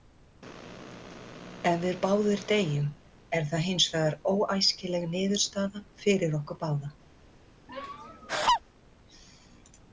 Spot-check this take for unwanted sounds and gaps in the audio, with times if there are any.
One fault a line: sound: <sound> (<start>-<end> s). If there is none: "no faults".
sound: laugh (7.7-8.6 s)